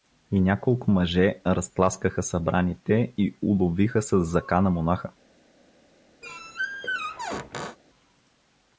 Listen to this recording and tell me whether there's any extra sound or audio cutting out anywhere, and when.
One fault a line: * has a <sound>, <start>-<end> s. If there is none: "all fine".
* has a squeak, 6.2-7.8 s